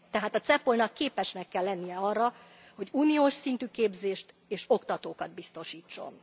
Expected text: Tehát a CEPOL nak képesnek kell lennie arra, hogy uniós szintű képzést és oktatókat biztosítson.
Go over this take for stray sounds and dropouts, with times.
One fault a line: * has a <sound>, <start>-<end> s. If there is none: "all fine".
all fine